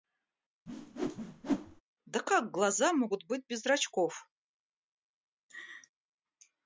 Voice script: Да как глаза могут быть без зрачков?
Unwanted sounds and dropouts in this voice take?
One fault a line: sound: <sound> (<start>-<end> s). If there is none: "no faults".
sound: whoosh (0.7-1.8 s)
sound: laugh (5.5-5.9 s)